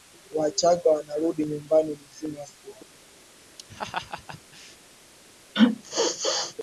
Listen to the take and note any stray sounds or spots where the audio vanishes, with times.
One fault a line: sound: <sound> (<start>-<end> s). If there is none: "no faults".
sound: laugh (3.6-4.8 s)
sound: sneeze (5.5-6.5 s)